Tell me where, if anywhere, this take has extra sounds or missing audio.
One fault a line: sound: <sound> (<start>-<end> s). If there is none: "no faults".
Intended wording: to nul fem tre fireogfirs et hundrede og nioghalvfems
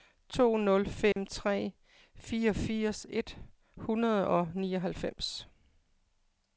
sound: dropout (1.1-1.2 s)